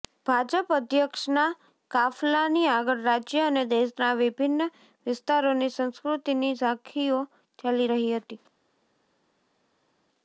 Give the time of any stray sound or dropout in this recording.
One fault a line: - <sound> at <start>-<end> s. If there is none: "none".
none